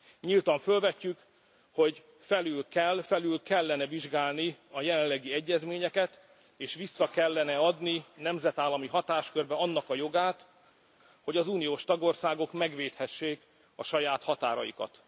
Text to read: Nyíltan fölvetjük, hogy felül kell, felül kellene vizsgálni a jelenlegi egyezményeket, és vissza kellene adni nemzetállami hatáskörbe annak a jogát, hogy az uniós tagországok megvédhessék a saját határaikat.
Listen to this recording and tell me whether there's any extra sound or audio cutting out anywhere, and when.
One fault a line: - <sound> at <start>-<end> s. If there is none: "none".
none